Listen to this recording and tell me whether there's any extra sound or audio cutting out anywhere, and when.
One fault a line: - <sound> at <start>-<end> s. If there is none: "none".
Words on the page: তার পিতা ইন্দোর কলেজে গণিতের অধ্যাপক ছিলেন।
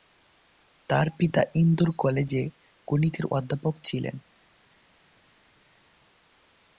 none